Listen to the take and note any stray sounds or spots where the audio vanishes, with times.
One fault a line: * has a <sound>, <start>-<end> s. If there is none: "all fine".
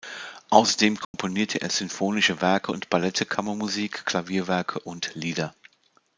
* has a dropout, 1.0-1.1 s